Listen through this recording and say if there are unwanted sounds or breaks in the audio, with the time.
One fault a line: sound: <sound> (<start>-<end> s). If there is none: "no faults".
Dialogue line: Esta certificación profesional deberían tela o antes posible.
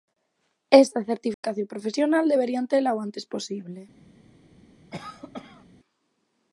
sound: dropout (1.3-1.4 s)
sound: cough (4.9-5.7 s)